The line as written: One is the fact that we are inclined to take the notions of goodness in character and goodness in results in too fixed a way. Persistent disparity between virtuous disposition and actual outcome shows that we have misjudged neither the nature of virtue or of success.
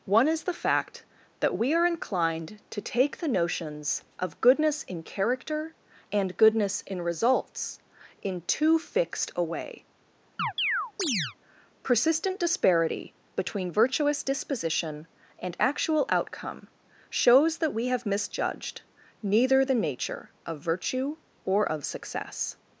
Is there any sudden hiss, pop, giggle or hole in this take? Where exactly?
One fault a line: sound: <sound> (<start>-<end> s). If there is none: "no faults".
sound: chirp (10.4-11.4 s)